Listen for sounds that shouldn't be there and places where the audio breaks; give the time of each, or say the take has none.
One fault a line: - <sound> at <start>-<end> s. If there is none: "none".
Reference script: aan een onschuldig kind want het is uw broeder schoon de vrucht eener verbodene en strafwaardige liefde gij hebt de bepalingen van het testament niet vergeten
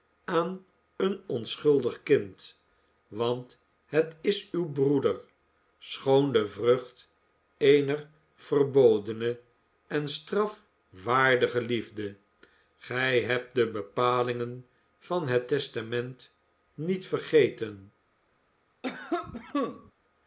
- cough at 18.8-19.9 s